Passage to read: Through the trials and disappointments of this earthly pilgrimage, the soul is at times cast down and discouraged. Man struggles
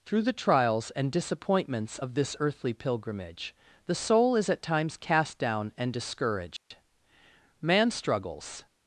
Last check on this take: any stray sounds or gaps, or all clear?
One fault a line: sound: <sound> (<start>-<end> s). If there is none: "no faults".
sound: dropout (6.6-6.7 s)